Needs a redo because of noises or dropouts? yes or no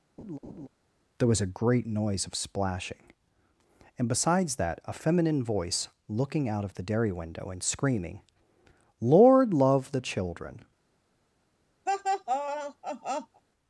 yes